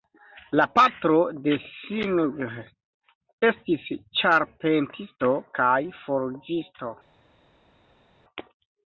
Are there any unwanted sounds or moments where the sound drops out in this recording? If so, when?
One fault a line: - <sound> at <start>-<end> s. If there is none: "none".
none